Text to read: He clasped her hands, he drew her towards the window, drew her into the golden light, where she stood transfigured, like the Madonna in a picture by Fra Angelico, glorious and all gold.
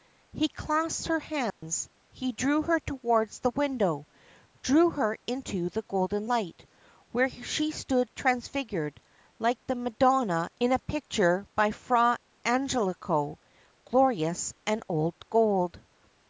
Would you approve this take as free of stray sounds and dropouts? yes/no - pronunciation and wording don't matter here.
no